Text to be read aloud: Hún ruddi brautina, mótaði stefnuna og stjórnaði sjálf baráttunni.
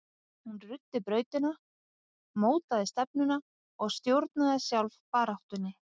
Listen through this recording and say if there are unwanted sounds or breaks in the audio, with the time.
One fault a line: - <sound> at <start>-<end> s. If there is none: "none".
none